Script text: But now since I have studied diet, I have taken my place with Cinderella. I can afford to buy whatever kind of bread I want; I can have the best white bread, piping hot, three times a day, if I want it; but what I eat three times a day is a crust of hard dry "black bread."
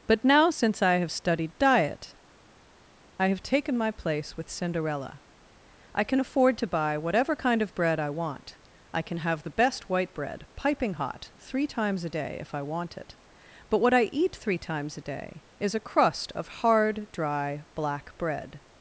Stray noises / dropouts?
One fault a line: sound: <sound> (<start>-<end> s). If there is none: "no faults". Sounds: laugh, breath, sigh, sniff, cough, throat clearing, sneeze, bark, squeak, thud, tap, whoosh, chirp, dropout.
no faults